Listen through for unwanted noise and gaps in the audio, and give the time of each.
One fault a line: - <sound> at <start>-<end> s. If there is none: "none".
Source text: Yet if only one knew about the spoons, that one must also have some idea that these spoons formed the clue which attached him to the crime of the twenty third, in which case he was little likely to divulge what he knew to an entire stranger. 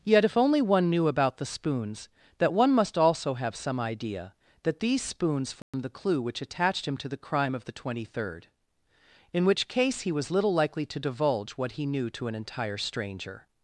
- dropout at 5.6-5.7 s